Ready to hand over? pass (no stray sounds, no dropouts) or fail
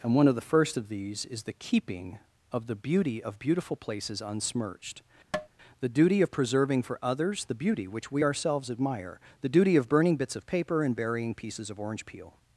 fail